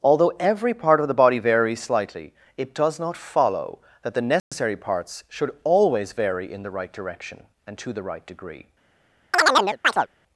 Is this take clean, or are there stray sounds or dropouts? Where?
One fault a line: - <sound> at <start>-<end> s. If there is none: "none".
- dropout at 4.4-4.5 s
- chirp at 9.3-10.1 s